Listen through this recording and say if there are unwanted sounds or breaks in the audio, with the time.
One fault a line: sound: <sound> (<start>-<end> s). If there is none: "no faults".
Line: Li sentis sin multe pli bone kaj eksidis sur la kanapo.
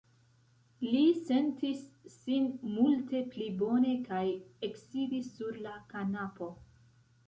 no faults